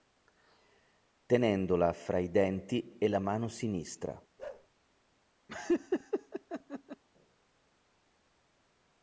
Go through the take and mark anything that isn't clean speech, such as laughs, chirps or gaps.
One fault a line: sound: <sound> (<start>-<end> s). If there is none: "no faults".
sound: bark (4.4-4.7 s)
sound: laugh (5.5-7.0 s)